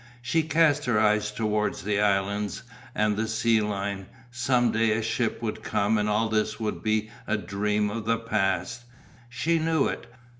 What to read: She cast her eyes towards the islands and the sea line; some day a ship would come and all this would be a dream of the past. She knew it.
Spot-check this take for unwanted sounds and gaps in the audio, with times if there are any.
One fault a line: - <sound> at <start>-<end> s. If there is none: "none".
none